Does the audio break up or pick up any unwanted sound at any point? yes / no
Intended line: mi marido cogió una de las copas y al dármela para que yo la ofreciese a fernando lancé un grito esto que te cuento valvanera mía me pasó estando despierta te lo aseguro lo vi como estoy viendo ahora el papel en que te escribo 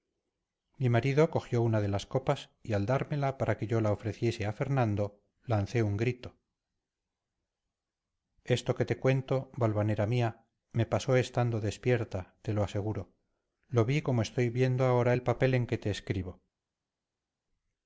no